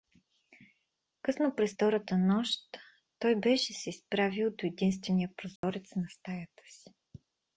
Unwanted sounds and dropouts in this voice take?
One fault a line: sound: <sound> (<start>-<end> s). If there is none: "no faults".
sound: dropout (5.6-5.6 s)